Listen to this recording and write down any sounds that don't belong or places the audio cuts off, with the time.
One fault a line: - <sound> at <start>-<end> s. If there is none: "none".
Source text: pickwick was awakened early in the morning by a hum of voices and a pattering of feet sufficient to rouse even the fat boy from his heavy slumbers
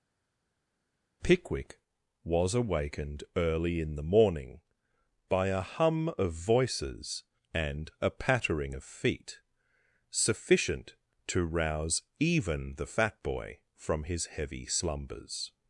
none